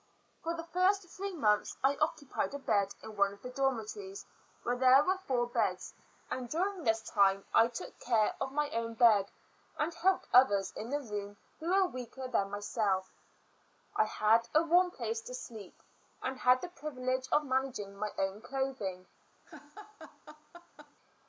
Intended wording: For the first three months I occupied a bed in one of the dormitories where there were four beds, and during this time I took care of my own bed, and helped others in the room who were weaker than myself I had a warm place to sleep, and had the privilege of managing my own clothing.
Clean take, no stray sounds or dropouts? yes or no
no